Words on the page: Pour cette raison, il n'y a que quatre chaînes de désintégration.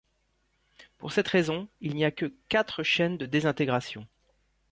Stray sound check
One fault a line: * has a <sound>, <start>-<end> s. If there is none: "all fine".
all fine